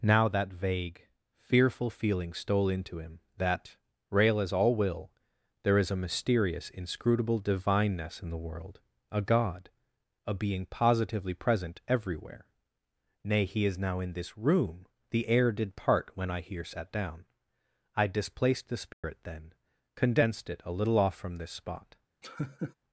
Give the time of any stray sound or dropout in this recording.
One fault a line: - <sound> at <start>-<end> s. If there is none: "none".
- dropout at 18.9-19.0 s
- laugh at 22.2-22.7 s